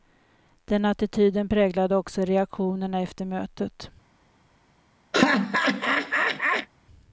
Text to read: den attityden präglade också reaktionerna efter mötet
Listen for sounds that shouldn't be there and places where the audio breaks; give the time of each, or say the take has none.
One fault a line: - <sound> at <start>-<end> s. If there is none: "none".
- laugh at 5.1-6.7 s